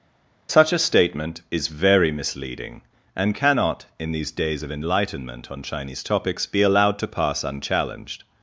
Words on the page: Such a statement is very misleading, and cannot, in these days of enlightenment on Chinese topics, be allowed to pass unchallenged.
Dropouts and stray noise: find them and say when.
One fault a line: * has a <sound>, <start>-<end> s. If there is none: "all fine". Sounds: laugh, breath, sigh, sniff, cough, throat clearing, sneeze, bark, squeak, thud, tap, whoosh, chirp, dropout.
all fine